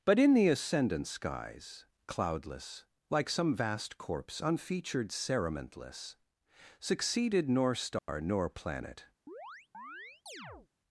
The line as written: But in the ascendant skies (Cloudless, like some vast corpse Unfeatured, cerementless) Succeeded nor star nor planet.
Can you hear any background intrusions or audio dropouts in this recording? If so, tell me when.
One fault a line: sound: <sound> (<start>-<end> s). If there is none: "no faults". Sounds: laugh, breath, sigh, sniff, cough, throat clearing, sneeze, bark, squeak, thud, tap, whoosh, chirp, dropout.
sound: dropout (8.0-8.1 s)
sound: chirp (9.3-10.7 s)